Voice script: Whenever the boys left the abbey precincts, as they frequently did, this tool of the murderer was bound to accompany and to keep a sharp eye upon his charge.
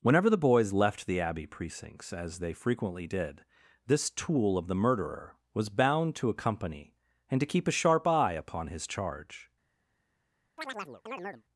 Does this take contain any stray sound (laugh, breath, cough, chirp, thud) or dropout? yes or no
yes